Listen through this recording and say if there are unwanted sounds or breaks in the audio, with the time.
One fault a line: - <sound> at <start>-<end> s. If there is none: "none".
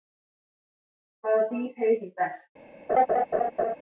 - laugh at 2.9-3.8 s